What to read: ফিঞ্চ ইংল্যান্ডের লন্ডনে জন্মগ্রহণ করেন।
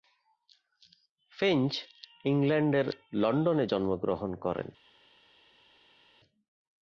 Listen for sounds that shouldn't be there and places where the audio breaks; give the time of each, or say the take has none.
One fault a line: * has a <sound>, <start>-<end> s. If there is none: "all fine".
all fine